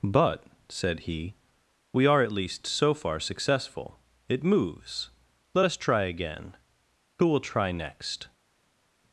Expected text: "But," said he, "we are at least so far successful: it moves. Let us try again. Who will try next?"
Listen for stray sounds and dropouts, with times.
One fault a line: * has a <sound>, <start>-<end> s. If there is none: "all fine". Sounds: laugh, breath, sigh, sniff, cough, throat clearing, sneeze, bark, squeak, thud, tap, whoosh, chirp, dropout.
all fine